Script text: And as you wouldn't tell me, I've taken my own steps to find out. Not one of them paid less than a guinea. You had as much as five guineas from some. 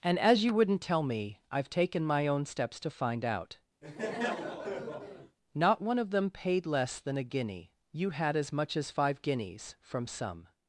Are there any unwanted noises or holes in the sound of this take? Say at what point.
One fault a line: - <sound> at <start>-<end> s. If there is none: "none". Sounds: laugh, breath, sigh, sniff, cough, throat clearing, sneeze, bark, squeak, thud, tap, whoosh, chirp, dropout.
- laugh at 3.8-5.4 s